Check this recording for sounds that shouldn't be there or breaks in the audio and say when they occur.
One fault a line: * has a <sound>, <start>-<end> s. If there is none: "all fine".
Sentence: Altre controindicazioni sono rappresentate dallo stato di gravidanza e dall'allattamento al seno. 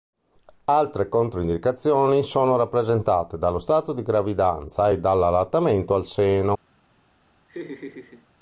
* has a laugh, 7.5-8.3 s